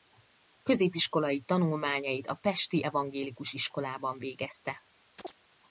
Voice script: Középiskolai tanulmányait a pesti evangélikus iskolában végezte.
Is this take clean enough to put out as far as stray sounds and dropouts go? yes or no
no